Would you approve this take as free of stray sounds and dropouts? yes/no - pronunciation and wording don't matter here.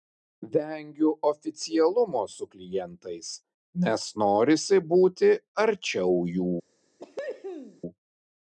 no